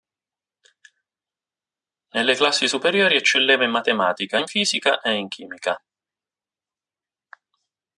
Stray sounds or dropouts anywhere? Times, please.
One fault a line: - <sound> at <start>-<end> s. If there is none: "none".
none